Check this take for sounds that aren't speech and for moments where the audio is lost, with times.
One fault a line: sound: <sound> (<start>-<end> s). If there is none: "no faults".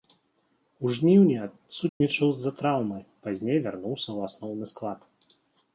sound: dropout (1.9-2.0 s)